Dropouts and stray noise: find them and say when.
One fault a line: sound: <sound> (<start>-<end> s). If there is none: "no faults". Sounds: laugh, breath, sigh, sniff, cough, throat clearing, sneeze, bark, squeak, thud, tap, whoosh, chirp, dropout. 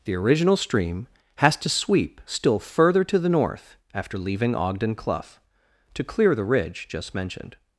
no faults